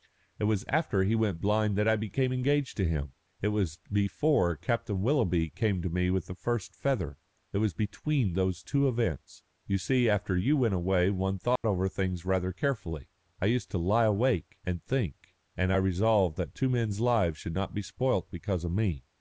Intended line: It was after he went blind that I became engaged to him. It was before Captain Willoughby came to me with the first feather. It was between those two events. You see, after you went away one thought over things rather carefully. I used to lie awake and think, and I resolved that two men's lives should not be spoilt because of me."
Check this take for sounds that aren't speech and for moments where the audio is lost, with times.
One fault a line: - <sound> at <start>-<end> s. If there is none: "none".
- dropout at 11.6-11.6 s